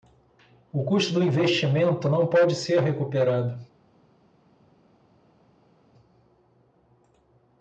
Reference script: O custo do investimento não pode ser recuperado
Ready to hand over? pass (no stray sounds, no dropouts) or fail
pass